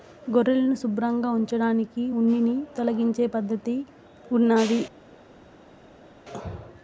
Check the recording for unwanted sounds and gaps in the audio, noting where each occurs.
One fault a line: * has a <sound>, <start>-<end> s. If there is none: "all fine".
all fine